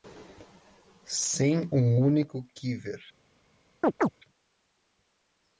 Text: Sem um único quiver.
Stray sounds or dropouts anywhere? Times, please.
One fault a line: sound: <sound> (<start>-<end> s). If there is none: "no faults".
sound: chirp (3.8-4.1 s)